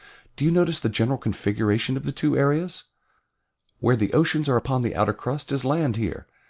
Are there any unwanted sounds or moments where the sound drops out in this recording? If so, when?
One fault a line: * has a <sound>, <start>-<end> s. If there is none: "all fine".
all fine